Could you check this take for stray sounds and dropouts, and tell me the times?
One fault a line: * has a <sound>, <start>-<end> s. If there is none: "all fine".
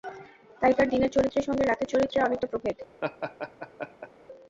* has a laugh, 3.0-4.1 s